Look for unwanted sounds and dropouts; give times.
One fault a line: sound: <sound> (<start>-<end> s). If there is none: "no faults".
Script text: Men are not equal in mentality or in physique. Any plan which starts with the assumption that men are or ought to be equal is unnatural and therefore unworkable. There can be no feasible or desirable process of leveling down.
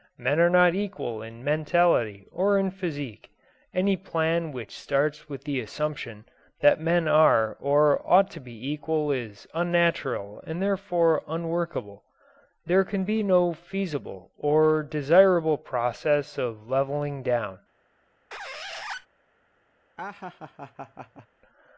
sound: squeak (18.3-19.1 s)
sound: laugh (20.0-21.3 s)